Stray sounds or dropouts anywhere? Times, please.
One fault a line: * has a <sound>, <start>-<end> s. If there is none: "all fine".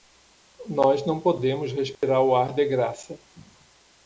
* has a dropout, 1.9-2.0 s